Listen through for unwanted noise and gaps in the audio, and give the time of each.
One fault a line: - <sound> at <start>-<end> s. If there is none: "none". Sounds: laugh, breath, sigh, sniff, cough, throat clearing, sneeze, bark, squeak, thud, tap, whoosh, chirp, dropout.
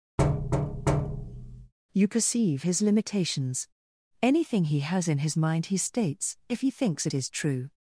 - thud at 0.2-1.7 s